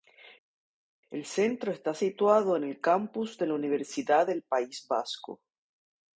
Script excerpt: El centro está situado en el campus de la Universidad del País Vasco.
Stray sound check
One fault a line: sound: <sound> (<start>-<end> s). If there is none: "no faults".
no faults